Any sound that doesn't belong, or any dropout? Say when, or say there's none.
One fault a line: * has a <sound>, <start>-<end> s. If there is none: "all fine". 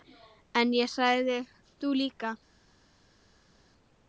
all fine